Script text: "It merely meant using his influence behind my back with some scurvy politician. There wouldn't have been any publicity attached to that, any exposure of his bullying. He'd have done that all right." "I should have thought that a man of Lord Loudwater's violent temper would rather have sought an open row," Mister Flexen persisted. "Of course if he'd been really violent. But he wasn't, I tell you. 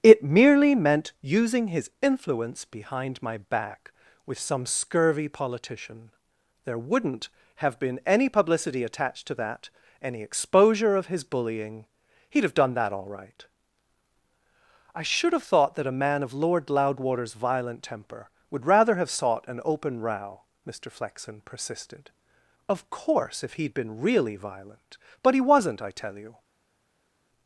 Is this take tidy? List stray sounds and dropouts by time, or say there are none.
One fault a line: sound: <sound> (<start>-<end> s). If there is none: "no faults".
no faults